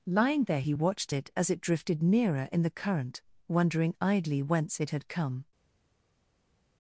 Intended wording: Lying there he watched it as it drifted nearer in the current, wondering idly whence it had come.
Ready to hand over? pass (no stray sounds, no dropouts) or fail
pass